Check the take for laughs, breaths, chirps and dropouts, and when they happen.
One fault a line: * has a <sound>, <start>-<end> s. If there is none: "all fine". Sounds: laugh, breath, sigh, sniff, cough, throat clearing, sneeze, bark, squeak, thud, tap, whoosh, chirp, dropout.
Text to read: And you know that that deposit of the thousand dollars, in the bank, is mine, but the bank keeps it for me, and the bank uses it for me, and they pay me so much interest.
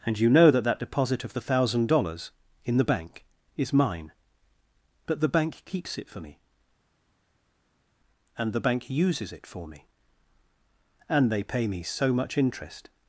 all fine